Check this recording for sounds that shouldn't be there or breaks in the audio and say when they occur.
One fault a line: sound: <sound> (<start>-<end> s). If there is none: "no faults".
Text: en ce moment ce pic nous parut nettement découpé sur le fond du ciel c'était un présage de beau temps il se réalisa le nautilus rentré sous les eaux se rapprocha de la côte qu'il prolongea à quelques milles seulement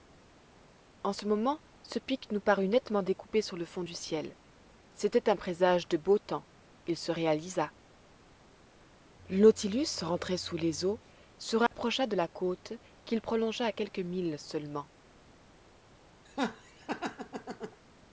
sound: dropout (11.7-11.7 s)
sound: laugh (16.2-17.8 s)